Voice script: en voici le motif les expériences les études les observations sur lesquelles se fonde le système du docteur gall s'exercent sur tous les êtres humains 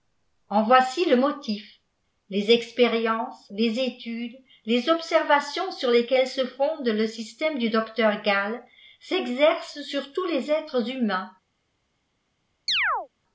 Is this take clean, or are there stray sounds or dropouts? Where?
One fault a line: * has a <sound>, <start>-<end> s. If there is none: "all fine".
* has a chirp, 12.7-13.1 s